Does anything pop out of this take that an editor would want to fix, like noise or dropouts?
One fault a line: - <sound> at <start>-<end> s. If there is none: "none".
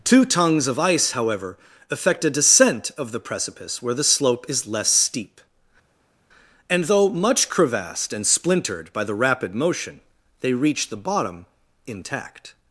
none